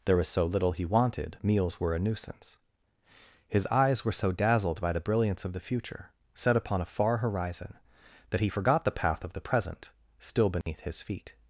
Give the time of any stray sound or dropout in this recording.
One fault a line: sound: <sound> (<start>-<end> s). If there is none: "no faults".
sound: dropout (10.6-10.7 s)